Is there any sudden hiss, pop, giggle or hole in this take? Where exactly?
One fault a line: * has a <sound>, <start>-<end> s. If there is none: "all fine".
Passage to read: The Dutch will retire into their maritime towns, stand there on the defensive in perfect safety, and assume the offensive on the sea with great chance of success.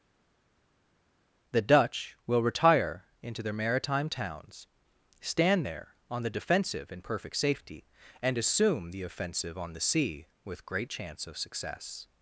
all fine